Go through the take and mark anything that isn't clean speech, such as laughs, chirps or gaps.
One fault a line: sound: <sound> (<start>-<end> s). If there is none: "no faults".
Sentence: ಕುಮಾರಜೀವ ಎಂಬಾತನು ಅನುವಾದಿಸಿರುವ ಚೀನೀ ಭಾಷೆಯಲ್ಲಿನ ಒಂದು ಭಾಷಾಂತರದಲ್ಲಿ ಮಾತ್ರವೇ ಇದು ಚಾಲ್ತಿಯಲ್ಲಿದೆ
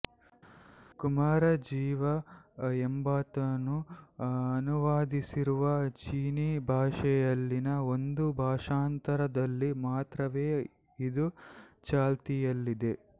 no faults